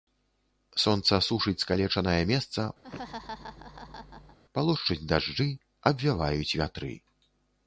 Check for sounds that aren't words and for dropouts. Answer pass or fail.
fail